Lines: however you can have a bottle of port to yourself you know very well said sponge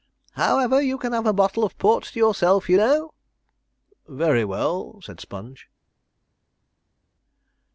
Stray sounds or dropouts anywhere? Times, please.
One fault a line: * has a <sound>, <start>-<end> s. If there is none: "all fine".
all fine